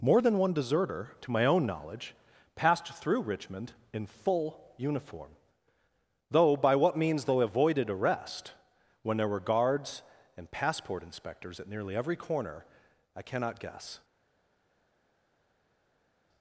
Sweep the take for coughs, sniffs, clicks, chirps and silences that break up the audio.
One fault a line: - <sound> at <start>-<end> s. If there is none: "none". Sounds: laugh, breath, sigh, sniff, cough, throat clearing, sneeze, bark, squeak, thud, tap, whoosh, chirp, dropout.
none